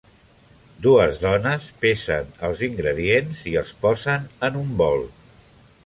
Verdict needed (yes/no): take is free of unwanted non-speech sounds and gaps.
yes